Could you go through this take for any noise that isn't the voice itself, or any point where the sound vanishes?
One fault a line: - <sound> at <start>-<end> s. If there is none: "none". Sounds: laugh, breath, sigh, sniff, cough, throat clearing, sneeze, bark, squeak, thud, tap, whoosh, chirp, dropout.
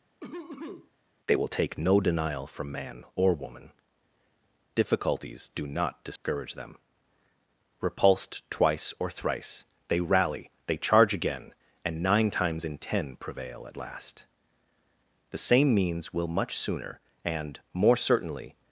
- cough at 0.2-0.9 s
- dropout at 6.2-6.2 s